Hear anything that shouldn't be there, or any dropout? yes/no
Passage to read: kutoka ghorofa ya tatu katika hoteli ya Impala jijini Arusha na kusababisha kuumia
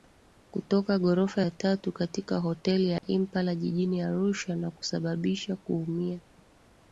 yes